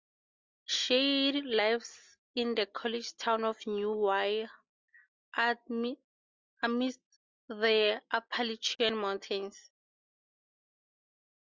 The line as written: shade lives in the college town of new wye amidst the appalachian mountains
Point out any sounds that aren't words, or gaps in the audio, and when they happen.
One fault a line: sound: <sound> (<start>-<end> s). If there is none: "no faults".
no faults